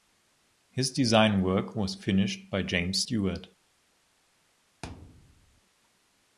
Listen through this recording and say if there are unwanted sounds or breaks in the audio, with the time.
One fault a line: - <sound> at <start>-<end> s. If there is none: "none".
- thud at 4.8-5.6 s